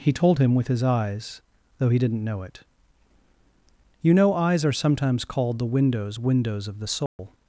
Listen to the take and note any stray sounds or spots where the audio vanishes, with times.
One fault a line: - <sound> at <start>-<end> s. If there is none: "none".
- dropout at 7.1-7.2 s